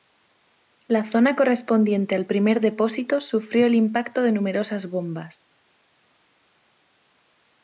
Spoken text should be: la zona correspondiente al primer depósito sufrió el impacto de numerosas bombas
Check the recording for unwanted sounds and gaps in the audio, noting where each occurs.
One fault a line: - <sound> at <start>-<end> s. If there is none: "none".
none